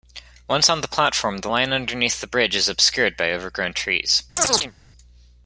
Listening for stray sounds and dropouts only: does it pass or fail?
fail